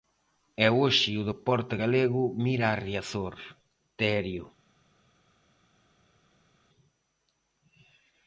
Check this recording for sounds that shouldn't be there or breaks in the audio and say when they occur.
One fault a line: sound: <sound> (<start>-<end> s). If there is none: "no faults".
no faults